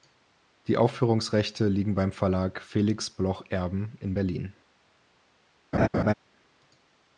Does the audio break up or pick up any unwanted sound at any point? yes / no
yes